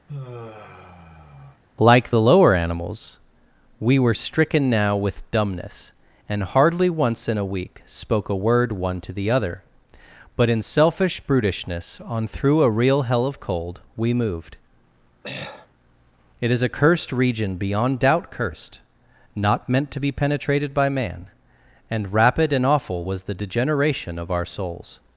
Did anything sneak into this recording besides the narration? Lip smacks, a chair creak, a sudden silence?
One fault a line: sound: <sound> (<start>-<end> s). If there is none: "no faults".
sound: sigh (0.1-1.6 s)
sound: throat clearing (15.2-15.7 s)